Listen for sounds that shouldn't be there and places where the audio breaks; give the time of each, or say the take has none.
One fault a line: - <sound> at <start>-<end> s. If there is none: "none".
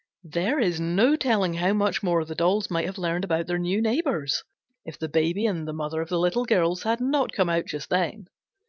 none